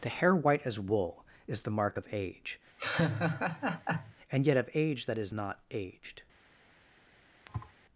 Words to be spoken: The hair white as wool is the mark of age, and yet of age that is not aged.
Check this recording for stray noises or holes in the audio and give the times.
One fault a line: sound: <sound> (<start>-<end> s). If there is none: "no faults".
sound: laugh (2.8-4.1 s)
sound: thud (7.5-7.7 s)